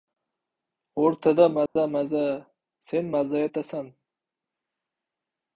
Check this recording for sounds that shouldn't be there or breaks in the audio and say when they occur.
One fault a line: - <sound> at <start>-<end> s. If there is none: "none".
- dropout at 1.7-1.8 s